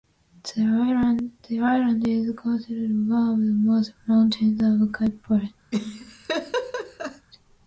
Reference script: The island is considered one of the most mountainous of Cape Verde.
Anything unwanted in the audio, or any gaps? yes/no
yes